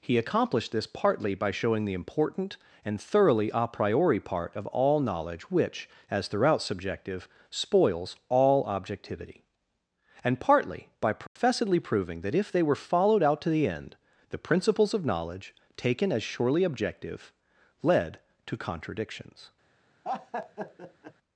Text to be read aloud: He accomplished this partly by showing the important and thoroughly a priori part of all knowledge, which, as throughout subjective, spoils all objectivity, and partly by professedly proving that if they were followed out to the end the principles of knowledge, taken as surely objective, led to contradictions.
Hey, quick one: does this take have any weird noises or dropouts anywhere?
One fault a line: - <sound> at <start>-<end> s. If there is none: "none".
- dropout at 11.3-11.4 s
- laugh at 20.0-21.1 s